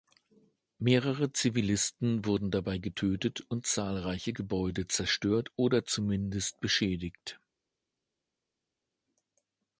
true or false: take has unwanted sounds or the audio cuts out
false